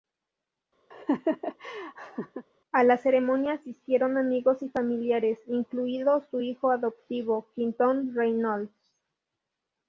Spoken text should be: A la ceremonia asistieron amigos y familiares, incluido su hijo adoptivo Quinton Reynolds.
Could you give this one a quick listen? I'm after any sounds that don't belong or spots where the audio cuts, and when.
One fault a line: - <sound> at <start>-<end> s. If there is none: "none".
- laugh at 0.9-2.5 s